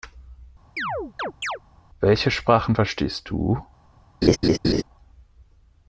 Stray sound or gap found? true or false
true